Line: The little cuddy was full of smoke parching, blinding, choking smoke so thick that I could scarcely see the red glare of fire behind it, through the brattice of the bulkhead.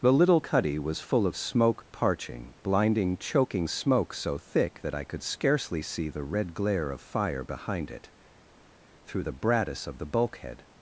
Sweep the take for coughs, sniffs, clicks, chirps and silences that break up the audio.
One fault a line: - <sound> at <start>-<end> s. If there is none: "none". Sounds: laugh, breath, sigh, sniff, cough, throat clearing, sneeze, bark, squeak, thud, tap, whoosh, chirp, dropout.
none